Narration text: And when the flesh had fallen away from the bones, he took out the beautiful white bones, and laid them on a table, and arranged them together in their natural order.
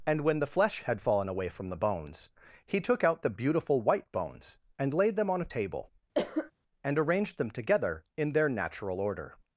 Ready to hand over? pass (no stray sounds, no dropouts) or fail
fail